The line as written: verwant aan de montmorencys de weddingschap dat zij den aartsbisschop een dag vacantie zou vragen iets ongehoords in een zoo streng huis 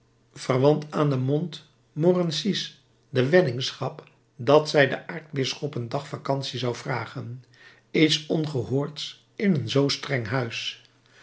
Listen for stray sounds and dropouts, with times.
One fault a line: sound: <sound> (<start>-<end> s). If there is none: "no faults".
no faults